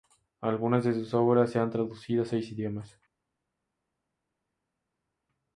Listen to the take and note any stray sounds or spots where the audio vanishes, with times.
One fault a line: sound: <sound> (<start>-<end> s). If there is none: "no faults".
no faults